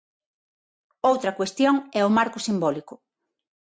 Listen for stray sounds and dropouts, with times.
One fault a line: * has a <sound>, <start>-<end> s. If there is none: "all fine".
all fine